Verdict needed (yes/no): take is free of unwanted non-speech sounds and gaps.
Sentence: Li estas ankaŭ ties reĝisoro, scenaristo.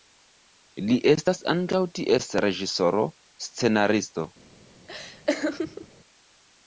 no